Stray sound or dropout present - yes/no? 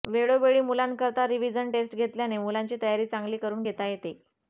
no